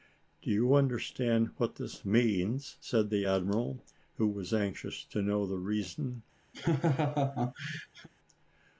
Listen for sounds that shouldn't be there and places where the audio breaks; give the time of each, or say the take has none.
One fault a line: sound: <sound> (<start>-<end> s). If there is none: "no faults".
sound: laugh (6.5-8.1 s)